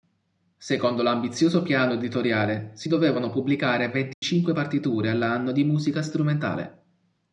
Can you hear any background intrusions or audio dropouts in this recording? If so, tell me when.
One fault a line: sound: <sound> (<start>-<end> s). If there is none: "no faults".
sound: dropout (4.1-4.2 s)